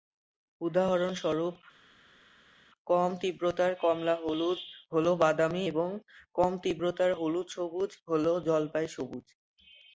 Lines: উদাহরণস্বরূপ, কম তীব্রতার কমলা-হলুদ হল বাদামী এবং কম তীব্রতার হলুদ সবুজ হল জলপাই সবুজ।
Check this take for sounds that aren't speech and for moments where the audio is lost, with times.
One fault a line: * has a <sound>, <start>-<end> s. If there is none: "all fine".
all fine